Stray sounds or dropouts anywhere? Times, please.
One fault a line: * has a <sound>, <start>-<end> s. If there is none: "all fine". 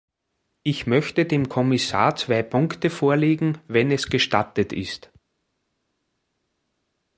all fine